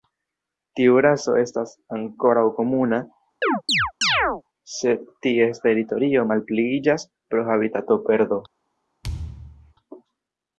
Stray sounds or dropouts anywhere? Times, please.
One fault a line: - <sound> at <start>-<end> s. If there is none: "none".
- chirp at 3.4-4.4 s
- thud at 9.0-9.7 s